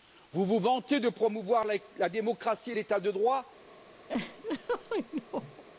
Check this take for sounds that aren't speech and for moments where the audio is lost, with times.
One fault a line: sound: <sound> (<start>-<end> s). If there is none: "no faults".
sound: laugh (4.1-5.6 s)